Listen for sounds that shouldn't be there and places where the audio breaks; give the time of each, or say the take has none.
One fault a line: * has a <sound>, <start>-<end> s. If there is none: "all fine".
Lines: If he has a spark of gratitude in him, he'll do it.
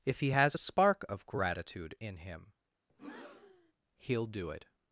* has a breath, 2.9-3.7 s